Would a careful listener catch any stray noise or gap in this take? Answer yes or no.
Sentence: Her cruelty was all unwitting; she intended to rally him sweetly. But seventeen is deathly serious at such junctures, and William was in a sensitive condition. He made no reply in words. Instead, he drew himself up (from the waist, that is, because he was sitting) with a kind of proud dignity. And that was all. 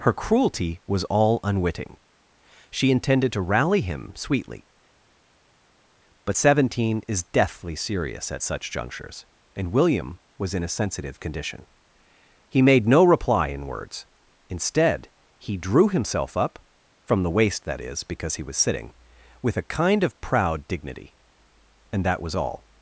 no